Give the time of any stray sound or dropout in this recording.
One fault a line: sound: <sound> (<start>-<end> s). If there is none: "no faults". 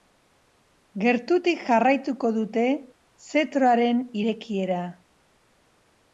no faults